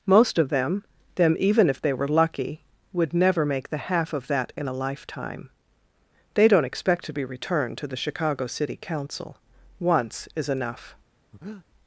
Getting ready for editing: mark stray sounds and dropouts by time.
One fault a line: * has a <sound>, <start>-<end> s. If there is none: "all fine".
* has a breath, 11.3-11.7 s